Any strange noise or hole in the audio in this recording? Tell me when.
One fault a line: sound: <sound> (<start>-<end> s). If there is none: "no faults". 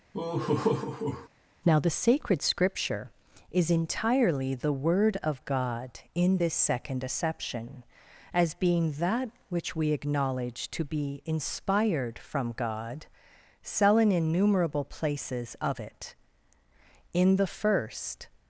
sound: laugh (0.1-1.3 s)